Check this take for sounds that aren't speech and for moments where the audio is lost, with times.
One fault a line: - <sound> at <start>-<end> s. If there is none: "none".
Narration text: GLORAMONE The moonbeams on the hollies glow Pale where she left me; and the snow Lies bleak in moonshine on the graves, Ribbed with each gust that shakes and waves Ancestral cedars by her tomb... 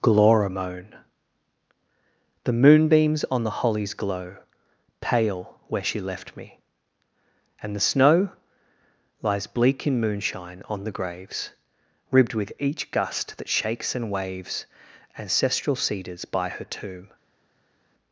none